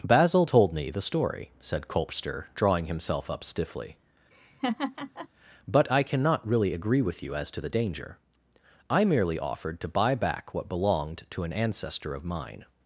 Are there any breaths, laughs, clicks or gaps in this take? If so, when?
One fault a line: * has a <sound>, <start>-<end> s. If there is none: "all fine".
* has a laugh, 4.3-5.3 s